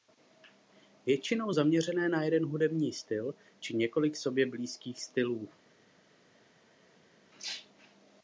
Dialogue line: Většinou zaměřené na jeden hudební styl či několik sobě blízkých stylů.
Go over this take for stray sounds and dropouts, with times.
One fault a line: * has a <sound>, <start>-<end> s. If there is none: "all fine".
all fine